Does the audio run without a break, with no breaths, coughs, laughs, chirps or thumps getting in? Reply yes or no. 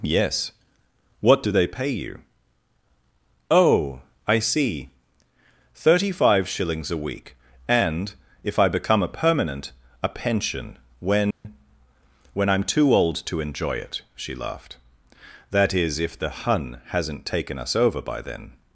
no